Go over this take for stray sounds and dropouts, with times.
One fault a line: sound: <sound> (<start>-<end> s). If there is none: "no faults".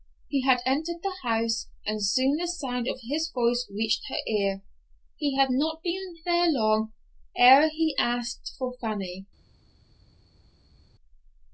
no faults